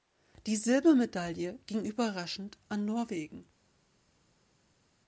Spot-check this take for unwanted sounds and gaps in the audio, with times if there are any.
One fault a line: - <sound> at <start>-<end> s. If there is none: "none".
none